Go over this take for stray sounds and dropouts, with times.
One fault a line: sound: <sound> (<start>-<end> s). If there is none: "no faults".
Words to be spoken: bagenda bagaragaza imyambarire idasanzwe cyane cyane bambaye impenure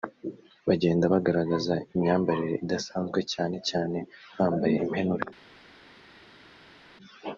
no faults